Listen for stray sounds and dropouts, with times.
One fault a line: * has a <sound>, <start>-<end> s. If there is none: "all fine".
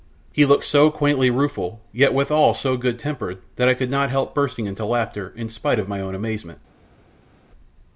all fine